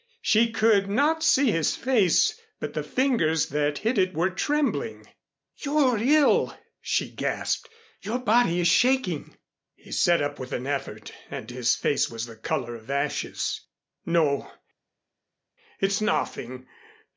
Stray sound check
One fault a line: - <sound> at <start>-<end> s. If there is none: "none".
none